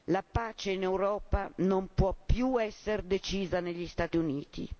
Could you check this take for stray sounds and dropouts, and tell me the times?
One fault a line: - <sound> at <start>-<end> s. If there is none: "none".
none